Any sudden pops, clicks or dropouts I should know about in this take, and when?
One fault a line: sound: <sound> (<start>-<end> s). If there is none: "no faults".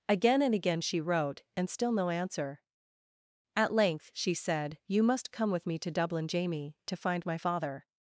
no faults